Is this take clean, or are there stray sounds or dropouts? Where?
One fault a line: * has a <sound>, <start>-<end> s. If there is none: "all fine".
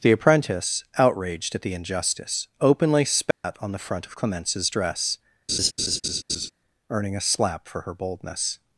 * has a dropout, 3.3-3.4 s
* has a laugh, 5.5-6.5 s